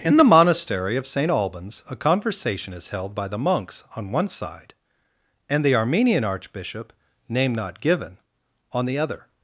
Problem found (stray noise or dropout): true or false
false